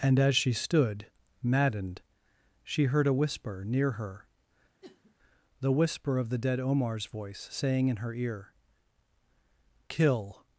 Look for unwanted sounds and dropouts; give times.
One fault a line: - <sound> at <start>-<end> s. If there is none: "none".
- sniff at 4.8-5.2 s